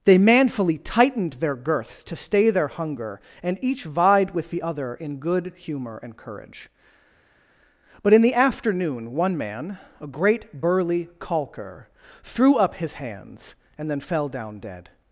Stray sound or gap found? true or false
false